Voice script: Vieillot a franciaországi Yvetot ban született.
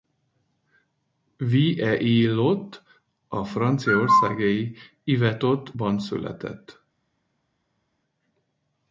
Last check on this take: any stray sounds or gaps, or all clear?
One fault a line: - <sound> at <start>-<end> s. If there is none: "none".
none